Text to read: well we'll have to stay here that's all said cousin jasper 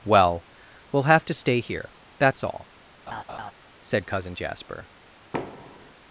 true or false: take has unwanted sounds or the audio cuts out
true